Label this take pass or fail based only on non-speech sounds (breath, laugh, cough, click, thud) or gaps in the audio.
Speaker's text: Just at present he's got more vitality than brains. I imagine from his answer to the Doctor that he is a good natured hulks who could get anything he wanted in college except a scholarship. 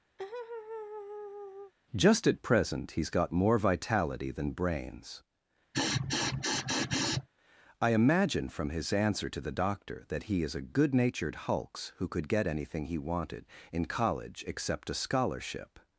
fail